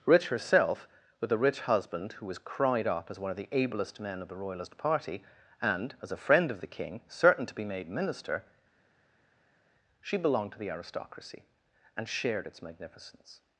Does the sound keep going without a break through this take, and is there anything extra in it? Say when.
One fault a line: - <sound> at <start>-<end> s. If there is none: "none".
none